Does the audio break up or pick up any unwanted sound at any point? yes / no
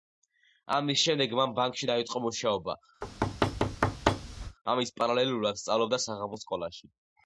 yes